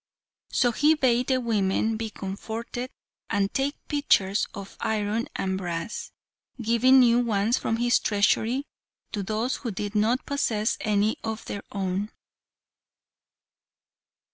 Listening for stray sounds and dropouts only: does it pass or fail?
pass